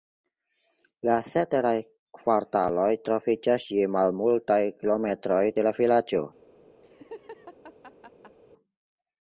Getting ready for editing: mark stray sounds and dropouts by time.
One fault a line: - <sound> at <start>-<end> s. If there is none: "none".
- laugh at 6.8-8.4 s